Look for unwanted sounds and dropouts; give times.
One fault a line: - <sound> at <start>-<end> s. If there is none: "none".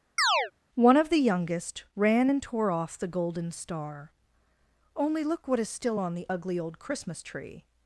- chirp at 0.2-0.5 s